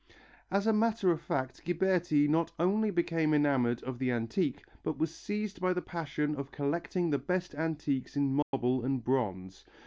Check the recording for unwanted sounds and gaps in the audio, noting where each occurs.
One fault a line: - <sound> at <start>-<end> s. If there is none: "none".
- dropout at 8.4-8.5 s